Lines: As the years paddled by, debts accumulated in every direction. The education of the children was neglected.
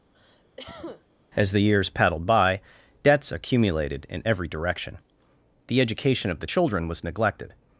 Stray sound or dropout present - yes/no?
yes